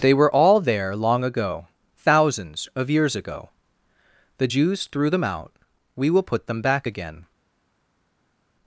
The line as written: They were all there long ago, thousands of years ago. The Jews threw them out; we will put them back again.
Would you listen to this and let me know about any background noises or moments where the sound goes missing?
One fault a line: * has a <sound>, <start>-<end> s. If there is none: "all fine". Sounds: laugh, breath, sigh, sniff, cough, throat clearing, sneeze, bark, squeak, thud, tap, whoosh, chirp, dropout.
all fine